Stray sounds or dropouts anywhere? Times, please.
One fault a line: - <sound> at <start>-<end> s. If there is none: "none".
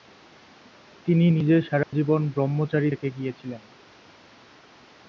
- dropout at 1.8-1.9 s